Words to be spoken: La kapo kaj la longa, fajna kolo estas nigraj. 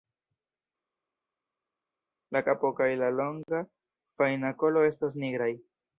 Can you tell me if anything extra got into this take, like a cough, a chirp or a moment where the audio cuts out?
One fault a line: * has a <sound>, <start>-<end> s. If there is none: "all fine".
all fine